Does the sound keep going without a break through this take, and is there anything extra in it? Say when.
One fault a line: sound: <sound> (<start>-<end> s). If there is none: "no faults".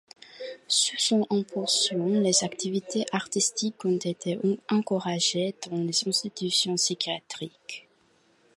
no faults